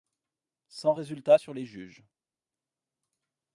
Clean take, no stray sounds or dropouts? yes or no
yes